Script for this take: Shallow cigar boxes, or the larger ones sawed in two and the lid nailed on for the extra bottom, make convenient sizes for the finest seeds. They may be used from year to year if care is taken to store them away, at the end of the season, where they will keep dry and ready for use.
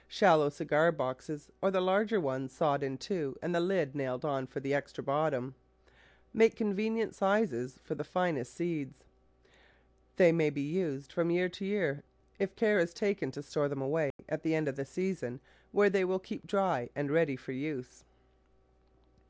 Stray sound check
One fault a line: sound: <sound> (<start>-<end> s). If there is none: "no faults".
sound: dropout (14.1-14.2 s)